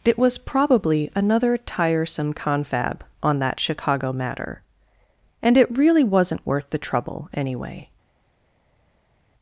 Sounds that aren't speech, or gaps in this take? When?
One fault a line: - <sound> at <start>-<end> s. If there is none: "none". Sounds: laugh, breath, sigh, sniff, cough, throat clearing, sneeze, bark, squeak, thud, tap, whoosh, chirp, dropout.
none